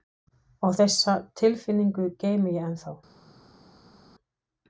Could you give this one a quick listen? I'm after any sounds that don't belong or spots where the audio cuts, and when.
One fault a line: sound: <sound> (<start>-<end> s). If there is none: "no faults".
no faults